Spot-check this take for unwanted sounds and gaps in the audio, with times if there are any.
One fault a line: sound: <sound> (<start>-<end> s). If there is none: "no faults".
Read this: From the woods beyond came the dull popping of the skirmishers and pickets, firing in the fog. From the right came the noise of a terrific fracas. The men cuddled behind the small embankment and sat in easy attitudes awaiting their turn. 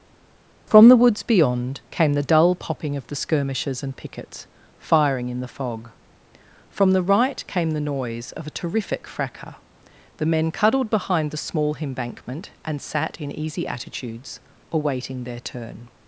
no faults